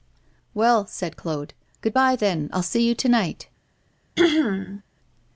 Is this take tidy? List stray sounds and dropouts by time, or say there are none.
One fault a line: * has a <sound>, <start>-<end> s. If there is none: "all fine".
* has a throat clearing, 4.2-4.8 s